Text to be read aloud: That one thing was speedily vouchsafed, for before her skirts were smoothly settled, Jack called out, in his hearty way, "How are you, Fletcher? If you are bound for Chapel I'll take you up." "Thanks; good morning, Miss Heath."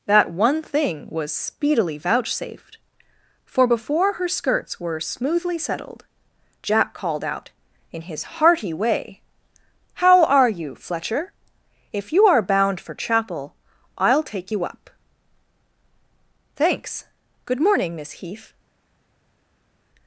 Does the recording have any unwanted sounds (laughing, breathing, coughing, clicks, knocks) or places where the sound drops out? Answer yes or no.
no